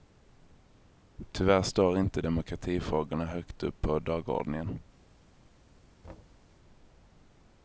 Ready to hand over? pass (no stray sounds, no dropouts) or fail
fail